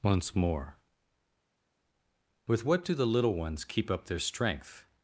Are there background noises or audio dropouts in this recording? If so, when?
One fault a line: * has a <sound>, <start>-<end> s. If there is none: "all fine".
all fine